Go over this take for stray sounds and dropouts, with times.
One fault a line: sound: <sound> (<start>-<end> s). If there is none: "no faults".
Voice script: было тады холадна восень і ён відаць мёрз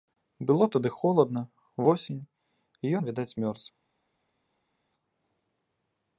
no faults